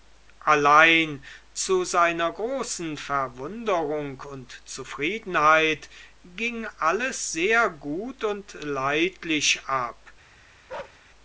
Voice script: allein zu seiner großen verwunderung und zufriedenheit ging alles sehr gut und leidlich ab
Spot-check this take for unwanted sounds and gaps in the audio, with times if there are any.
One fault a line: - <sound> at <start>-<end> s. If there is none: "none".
- bark at 10.7-11.0 s